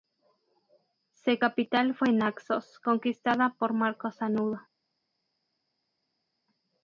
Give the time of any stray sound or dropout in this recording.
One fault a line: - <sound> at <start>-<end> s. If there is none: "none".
none